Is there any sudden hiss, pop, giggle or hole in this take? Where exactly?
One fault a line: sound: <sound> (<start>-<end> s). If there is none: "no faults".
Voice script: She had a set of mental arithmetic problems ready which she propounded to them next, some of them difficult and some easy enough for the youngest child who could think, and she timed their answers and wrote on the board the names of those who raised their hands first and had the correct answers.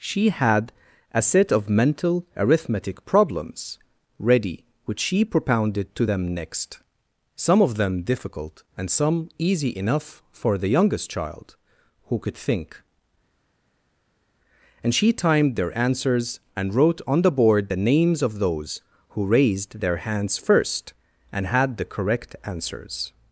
no faults